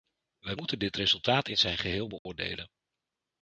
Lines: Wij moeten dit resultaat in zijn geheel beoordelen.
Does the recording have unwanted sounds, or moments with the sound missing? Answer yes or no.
yes